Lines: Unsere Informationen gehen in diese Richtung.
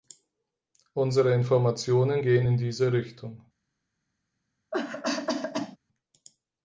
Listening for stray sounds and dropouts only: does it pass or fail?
fail